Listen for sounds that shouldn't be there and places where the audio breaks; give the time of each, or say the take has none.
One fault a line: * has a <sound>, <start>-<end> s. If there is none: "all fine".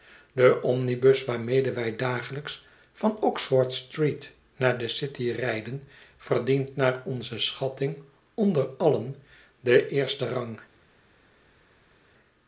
all fine